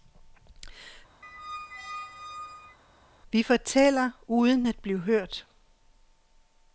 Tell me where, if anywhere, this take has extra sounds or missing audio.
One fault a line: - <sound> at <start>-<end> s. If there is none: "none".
- squeak at 1.2-2.8 s